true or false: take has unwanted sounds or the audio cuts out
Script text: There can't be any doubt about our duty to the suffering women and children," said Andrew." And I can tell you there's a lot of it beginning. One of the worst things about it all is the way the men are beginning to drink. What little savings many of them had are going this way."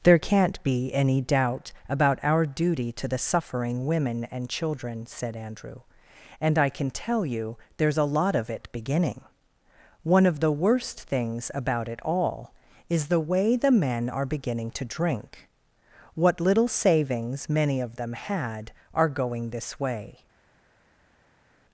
false